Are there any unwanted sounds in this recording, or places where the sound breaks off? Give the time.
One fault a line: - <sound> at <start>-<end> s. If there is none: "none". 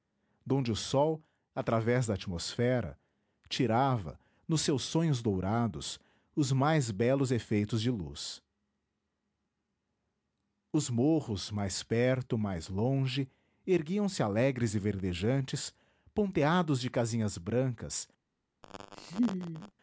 - laugh at 18.6-19.7 s